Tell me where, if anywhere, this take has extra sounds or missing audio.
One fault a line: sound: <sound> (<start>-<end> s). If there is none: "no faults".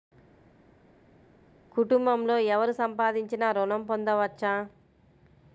no faults